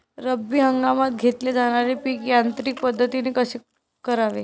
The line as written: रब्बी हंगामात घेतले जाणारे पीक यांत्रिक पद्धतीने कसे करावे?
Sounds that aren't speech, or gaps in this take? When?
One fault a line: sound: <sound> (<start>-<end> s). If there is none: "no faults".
no faults